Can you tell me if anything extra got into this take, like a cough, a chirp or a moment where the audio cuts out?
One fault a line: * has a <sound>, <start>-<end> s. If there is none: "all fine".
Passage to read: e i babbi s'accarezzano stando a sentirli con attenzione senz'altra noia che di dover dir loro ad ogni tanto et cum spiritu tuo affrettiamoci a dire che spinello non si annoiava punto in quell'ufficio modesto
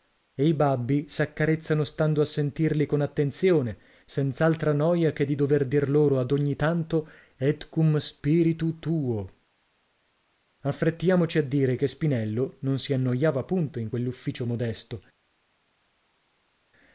all fine